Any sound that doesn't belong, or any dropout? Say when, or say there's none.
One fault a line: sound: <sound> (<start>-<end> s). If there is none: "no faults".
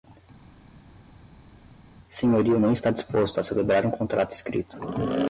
no faults